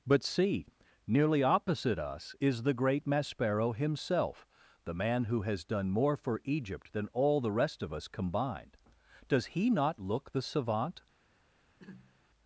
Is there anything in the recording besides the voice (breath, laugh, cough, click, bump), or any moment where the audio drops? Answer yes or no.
yes